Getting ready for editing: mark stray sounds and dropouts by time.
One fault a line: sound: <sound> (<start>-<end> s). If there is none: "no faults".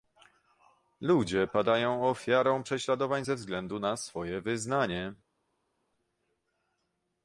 no faults